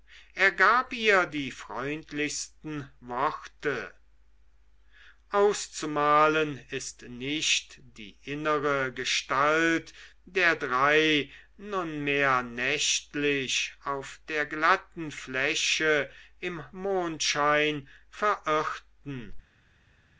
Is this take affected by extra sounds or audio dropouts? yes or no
no